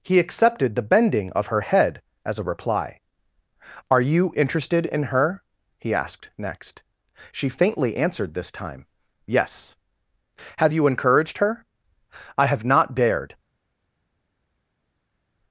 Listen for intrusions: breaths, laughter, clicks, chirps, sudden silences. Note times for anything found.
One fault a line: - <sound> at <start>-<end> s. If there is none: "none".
none